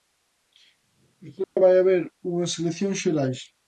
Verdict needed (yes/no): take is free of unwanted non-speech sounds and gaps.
no